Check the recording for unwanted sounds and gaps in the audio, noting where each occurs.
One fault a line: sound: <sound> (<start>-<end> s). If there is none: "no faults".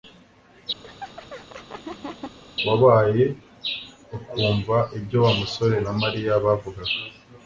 sound: laugh (0.8-2.4 s)